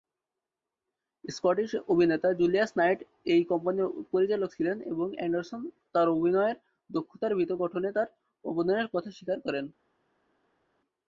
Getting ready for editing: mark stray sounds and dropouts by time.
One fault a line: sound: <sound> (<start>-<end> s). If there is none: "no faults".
no faults